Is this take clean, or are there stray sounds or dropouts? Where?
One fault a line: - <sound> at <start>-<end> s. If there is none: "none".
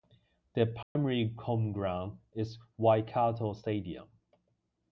- dropout at 0.8-1.0 s